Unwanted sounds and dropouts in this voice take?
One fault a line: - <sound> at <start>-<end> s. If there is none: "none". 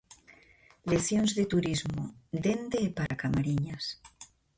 - dropout at 3.1-3.1 s